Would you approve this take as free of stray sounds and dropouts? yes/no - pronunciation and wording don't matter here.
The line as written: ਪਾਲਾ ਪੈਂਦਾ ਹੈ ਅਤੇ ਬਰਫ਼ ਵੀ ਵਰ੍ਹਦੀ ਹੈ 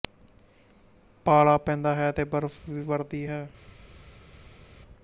yes